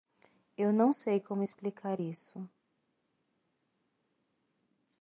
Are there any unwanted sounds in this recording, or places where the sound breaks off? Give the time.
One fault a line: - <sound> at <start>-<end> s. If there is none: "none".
none